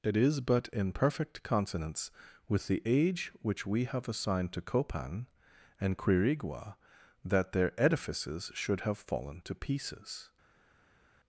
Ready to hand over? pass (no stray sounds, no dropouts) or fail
pass